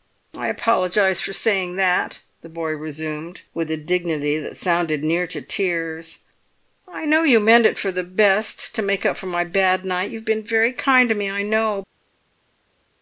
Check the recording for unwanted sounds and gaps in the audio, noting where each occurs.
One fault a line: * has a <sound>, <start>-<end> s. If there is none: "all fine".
all fine